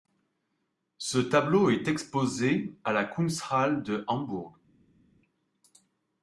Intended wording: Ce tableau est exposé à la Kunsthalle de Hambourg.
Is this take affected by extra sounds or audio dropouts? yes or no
no